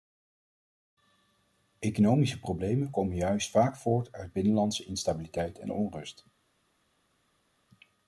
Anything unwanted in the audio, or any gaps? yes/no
no